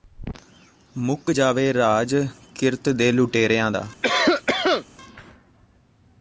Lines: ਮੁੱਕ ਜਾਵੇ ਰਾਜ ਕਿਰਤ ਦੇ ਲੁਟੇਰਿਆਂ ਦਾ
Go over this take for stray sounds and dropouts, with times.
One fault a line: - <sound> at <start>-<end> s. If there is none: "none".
- cough at 4.0-4.9 s